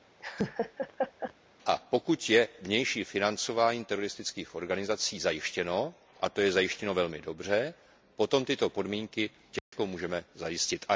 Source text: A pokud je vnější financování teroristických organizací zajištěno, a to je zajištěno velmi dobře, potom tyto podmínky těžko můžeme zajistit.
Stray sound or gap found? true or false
true